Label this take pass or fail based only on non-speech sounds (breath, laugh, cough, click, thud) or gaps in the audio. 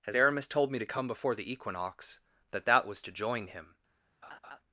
fail